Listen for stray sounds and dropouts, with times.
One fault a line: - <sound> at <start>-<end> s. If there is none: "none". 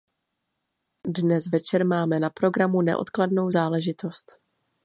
none